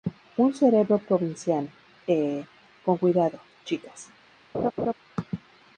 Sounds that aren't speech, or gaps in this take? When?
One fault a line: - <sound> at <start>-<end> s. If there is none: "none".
- laugh at 4.5-4.9 s